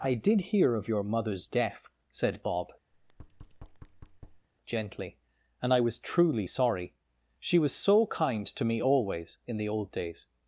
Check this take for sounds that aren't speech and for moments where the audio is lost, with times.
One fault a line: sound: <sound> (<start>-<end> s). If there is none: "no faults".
sound: thud (2.9-4.5 s)